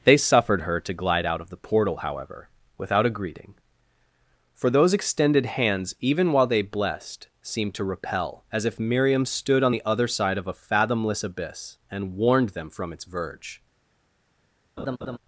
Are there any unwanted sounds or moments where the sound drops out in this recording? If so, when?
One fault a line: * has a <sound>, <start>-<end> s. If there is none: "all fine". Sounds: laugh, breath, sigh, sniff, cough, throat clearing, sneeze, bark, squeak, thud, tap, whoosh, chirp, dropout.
* has a laugh, 14.8-15.2 s